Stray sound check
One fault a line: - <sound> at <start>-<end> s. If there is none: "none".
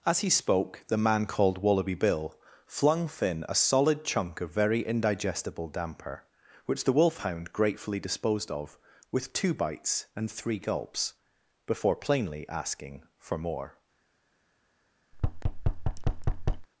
- thud at 15.1-16.7 s